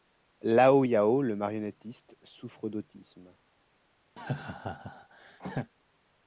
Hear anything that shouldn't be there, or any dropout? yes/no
yes